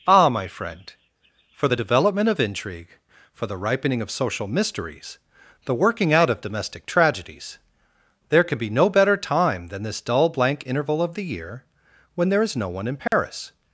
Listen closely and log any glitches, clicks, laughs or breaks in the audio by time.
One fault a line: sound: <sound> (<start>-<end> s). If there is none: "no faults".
sound: dropout (13.1-13.1 s)